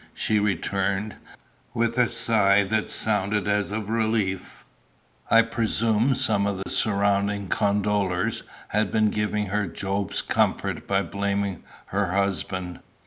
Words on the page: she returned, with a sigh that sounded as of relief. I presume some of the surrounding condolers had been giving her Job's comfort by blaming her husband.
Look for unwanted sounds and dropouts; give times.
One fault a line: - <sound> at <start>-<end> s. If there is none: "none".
- dropout at 6.6-6.7 s